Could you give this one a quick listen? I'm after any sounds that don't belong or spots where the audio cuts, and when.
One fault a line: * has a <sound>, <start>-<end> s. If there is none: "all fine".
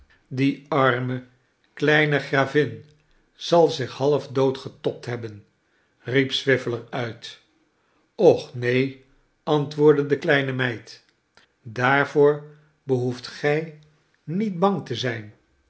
all fine